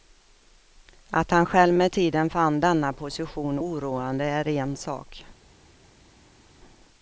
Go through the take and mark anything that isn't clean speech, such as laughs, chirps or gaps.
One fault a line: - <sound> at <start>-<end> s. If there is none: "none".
none